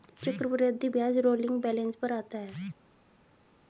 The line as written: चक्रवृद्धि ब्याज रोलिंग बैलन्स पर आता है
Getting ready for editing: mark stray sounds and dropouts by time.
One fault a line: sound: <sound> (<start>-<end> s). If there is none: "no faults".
no faults